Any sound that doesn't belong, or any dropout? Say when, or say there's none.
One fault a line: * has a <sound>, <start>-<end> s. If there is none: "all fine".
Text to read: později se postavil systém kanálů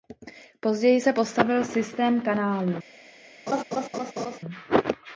* has a laugh, 3.5-4.4 s